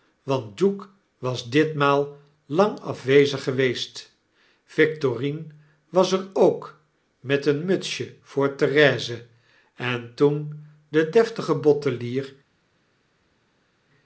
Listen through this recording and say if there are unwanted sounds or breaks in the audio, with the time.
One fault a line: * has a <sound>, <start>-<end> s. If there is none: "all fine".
all fine